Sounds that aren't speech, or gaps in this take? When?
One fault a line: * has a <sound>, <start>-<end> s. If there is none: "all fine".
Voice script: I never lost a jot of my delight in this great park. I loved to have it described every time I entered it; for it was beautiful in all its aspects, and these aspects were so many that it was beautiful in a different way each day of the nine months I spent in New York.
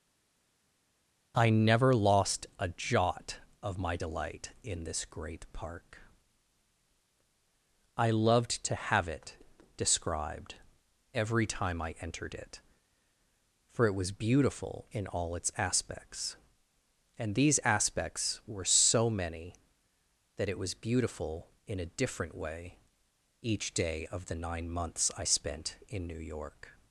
all fine